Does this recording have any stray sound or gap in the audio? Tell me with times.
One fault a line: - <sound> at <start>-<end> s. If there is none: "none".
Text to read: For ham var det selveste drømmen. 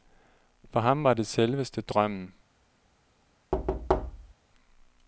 - thud at 3.5-4.3 s